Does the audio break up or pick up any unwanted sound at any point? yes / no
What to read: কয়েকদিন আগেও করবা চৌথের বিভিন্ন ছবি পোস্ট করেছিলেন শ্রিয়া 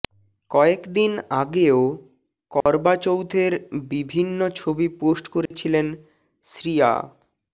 yes